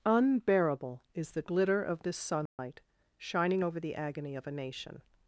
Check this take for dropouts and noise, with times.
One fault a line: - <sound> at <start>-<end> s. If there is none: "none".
- dropout at 2.5-2.6 s